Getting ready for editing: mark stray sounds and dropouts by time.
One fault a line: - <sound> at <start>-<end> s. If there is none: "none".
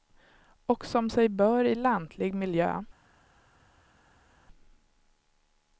none